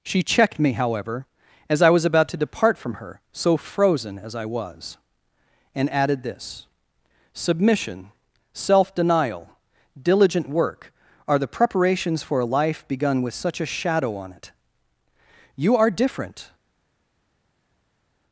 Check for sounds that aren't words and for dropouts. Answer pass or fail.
pass